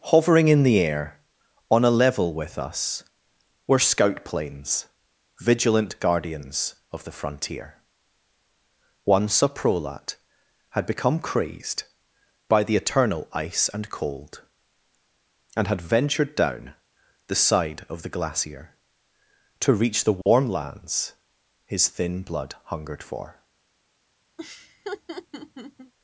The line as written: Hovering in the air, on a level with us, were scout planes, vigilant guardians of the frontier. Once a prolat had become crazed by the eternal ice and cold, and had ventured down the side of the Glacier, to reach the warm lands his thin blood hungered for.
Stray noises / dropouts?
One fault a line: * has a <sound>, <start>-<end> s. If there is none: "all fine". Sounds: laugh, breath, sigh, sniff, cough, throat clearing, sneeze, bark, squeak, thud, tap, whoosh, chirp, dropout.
* has a dropout, 20.2-20.3 s
* has a laugh, 24.4-25.9 s